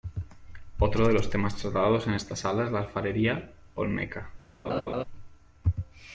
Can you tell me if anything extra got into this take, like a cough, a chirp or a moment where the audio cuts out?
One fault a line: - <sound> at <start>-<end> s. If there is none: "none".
- laugh at 4.6-5.0 s